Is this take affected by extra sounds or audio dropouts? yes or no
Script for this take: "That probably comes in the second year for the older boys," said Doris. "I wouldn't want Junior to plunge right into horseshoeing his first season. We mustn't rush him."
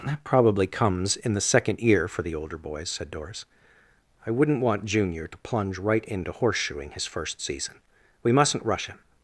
no